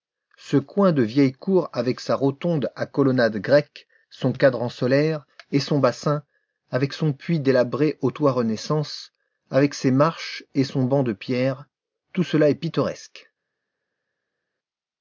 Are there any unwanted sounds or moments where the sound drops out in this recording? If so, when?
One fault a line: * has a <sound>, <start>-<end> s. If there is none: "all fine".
all fine